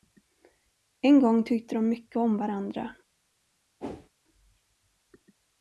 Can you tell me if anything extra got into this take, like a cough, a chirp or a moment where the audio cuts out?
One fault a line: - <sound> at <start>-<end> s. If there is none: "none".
- whoosh at 3.8-4.1 s